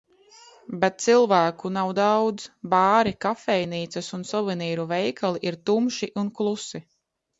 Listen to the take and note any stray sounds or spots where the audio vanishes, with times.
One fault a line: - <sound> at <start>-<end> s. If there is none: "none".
none